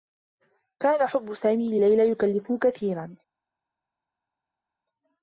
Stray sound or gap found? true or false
false